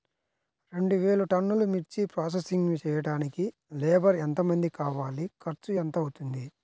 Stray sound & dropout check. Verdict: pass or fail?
pass